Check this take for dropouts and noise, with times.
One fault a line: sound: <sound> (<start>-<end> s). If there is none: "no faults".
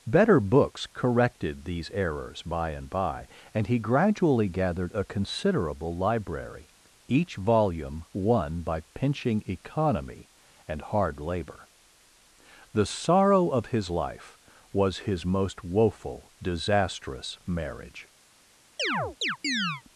sound: chirp (18.8-19.8 s)